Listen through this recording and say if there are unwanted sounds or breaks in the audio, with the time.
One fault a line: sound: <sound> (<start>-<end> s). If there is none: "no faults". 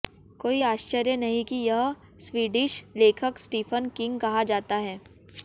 no faults